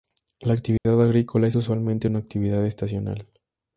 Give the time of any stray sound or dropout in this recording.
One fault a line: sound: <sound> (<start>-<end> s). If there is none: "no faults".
sound: dropout (0.8-0.9 s)